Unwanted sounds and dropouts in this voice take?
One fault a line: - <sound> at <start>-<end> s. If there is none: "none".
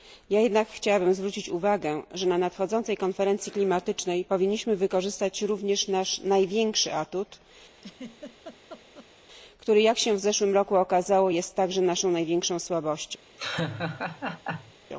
- laugh at 7.8-9.1 s
- laugh at 13.4-14.7 s